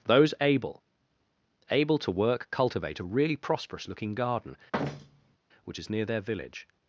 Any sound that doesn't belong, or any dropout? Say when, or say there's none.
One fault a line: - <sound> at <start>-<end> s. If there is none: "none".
- thud at 4.7-5.4 s